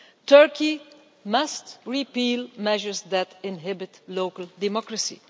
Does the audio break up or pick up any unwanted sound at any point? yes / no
no